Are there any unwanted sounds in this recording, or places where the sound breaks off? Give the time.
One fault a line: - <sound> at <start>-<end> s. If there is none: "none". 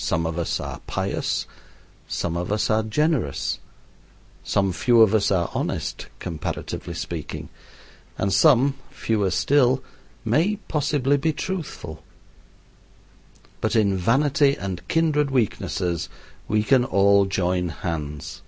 none